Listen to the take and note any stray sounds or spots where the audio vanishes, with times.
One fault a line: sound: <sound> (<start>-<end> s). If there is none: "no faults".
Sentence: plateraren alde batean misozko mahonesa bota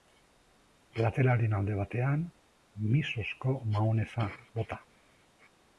no faults